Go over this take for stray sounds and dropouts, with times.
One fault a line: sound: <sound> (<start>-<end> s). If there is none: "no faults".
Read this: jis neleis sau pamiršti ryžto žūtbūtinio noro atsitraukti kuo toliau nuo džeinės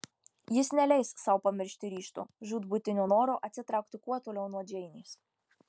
no faults